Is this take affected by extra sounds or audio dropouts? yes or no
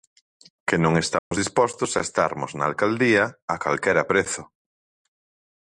yes